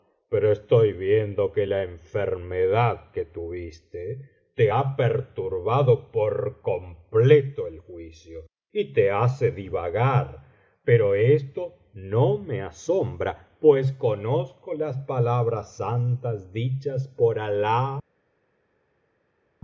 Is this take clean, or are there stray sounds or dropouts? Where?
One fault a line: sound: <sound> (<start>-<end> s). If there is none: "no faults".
no faults